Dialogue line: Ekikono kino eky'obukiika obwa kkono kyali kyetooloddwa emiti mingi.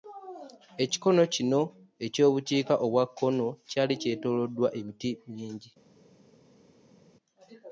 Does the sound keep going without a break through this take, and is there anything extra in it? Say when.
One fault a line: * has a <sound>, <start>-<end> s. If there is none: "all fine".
all fine